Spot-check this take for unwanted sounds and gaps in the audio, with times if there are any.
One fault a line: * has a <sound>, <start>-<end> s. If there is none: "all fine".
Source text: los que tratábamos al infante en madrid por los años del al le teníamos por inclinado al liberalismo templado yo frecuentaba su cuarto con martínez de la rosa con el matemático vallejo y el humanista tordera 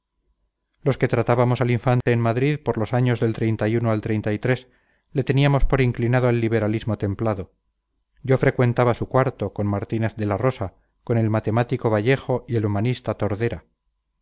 * has a dropout, 2.0-2.1 s